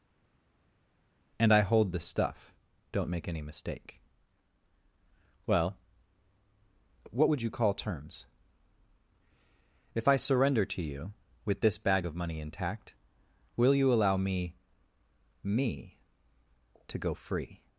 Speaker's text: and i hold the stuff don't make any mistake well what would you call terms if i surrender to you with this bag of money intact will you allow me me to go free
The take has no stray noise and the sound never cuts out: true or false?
true